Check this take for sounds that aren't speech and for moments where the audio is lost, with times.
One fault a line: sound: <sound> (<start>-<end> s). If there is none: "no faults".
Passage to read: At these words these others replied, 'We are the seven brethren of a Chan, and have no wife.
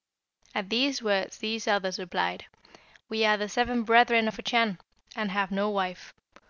no faults